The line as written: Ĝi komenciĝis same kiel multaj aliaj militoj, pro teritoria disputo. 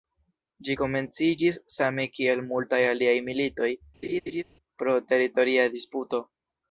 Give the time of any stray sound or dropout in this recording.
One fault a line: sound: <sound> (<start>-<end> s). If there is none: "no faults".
sound: laugh (4.0-4.4 s)